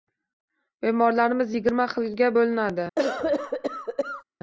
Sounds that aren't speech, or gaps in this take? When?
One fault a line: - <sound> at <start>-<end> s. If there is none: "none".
- cough at 3.0-4.2 s